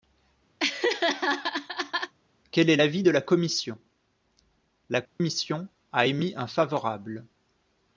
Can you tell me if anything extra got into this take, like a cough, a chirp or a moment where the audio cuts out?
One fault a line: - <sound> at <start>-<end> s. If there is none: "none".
- laugh at 0.6-2.1 s
- dropout at 5.1-5.2 s